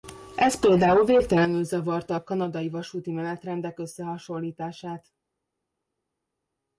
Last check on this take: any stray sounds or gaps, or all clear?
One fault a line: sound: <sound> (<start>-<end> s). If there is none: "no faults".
no faults